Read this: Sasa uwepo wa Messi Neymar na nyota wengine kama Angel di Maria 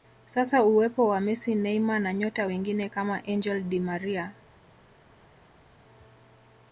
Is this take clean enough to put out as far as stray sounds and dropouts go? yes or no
yes